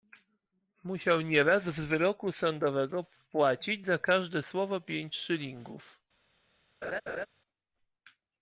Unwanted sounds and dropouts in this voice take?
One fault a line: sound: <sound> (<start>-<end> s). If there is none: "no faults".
sound: laugh (6.8-7.3 s)